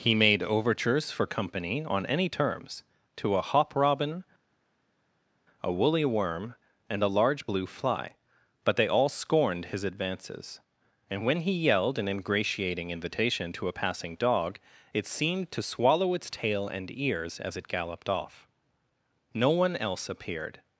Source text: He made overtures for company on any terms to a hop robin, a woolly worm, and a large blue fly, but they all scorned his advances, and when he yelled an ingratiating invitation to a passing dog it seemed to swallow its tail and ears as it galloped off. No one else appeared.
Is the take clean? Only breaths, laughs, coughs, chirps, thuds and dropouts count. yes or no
yes